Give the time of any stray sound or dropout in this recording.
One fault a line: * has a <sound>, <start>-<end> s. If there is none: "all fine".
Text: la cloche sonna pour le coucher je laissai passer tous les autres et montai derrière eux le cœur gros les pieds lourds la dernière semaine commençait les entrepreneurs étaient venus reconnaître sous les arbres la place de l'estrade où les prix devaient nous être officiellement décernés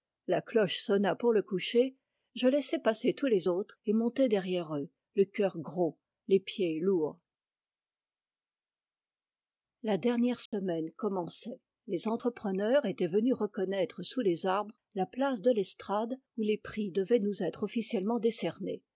* has a dropout, 10.5-10.5 s